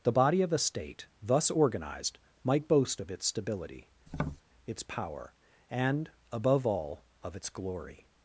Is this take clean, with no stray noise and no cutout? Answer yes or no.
no